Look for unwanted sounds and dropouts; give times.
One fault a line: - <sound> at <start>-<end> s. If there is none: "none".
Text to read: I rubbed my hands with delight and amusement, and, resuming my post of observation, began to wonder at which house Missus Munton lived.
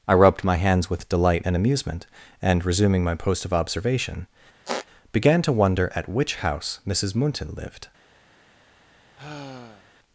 - squeak at 4.7-4.9 s
- sigh at 9.2-9.9 s